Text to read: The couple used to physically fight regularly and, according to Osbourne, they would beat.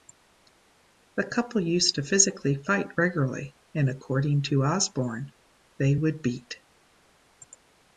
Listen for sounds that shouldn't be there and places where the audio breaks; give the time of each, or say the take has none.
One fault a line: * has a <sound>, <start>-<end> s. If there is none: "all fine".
all fine